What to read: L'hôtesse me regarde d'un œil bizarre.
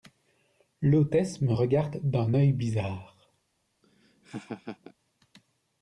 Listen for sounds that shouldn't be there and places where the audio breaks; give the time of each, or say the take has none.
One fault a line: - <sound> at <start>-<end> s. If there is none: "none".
- laugh at 3.8-4.9 s